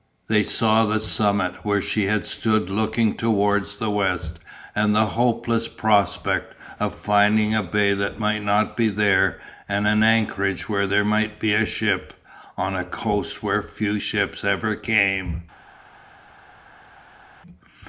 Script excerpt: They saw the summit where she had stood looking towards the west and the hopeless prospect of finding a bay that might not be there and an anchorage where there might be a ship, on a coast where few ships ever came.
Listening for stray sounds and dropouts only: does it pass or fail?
pass